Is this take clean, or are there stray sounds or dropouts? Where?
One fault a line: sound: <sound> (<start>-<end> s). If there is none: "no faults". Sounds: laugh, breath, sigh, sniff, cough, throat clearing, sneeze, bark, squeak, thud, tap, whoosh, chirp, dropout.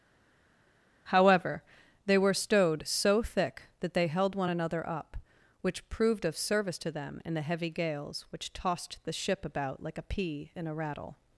no faults